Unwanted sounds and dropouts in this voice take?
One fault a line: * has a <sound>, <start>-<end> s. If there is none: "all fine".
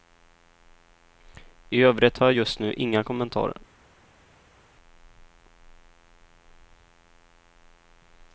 all fine